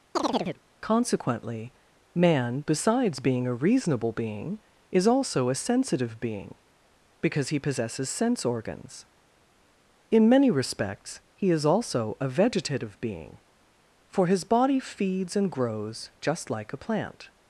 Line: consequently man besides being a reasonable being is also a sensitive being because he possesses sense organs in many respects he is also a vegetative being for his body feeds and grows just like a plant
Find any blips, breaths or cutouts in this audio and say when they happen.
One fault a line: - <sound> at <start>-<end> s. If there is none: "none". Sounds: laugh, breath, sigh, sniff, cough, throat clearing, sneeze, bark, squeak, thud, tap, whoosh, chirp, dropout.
- chirp at 0.2-0.6 s